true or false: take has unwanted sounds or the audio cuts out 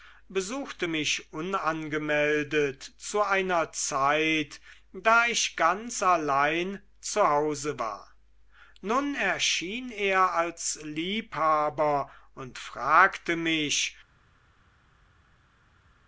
false